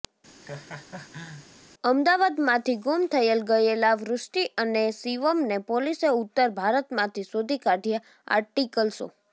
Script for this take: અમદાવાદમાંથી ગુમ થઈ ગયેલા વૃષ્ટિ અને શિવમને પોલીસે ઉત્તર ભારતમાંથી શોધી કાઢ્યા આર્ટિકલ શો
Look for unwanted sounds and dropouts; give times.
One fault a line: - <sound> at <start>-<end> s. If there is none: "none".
- laugh at 0.4-1.5 s